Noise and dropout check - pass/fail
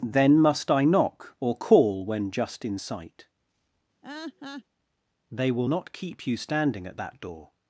fail